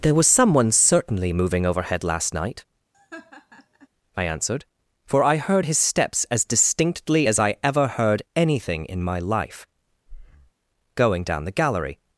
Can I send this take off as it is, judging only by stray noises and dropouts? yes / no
no